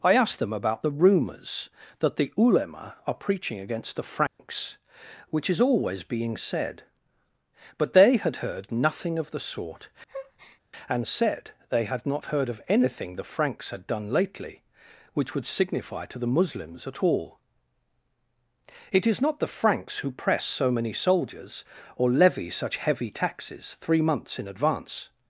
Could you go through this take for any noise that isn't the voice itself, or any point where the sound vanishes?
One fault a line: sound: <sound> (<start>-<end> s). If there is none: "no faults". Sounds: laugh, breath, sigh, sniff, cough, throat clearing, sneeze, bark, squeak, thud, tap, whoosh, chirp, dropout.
sound: dropout (4.3-4.4 s)
sound: breath (10.1-10.6 s)